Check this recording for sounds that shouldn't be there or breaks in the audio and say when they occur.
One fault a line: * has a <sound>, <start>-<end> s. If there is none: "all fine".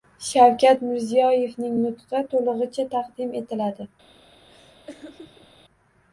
* has a laugh, 4.5-5.5 s